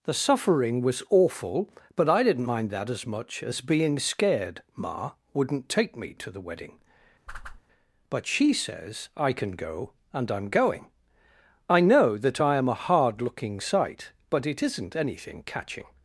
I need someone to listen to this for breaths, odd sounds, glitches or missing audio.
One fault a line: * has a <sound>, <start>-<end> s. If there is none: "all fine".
* has a whoosh, 7.3-7.6 s